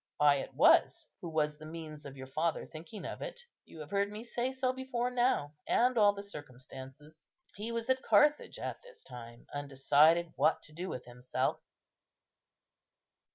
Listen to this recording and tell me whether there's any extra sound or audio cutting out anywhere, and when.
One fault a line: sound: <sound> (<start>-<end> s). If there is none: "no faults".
no faults